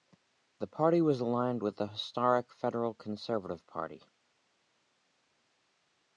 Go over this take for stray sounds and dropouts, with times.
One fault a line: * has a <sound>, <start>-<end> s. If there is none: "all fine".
all fine